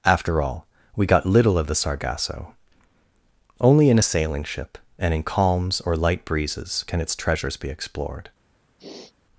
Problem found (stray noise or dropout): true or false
true